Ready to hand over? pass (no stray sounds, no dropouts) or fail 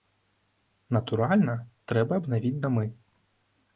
pass